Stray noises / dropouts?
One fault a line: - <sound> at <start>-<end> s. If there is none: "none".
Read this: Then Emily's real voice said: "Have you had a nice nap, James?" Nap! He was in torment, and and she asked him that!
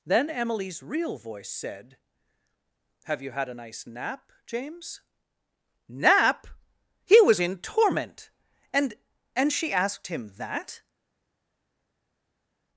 none